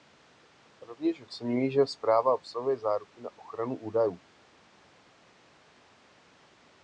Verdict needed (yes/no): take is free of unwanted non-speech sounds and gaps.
yes